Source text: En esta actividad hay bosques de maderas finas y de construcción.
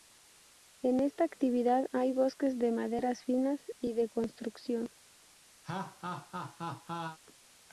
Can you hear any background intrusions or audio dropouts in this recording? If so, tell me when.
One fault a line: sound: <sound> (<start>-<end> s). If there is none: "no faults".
sound: laugh (5.6-7.2 s)